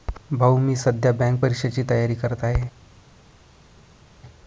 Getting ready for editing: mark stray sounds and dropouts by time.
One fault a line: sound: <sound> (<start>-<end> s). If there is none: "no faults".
no faults